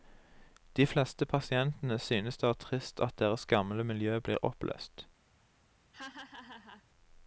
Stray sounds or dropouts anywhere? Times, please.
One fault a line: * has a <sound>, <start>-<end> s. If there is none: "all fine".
* has a laugh, 5.9-6.8 s